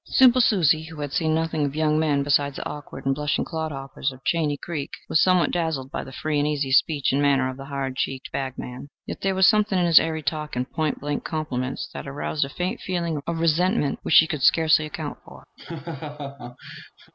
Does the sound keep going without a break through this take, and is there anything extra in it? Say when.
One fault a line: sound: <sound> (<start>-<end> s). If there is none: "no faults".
sound: laugh (15.6-17.1 s)